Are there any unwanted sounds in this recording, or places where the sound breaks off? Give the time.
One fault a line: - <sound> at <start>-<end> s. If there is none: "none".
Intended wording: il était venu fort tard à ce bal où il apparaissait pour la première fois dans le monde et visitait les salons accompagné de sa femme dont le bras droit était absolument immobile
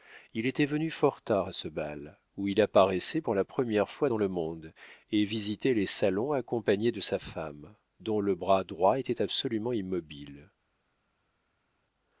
none